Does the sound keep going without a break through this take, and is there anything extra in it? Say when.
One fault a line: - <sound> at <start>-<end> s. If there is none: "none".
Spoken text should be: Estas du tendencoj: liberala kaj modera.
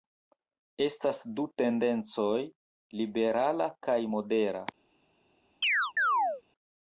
- chirp at 5.6-6.4 s